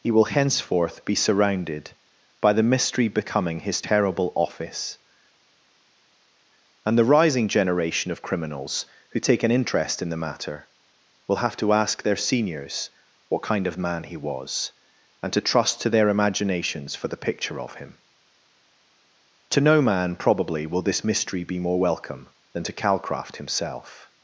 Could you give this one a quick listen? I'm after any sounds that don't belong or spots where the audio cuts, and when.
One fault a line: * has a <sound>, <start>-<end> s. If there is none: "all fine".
all fine